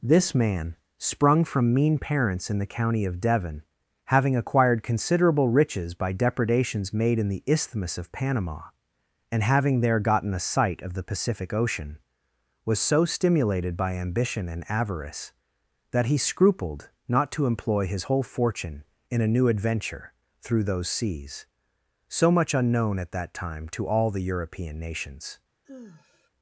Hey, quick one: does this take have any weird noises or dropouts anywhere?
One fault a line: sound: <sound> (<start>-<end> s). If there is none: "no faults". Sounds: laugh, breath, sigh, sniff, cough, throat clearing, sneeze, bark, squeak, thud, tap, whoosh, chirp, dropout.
sound: sigh (25.6-26.3 s)